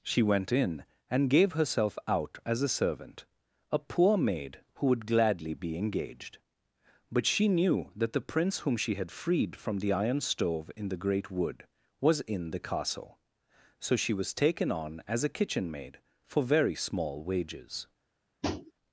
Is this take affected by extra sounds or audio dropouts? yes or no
yes